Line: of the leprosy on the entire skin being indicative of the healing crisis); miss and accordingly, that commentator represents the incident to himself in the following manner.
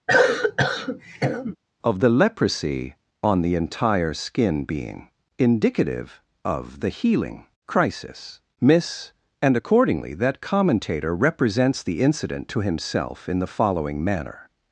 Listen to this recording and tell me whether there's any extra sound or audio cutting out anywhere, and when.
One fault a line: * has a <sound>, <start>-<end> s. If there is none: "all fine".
* has a cough, 0.1-1.6 s